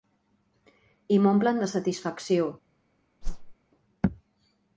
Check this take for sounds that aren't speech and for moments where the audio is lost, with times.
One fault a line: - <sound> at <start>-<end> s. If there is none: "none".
- whoosh at 3.2-3.6 s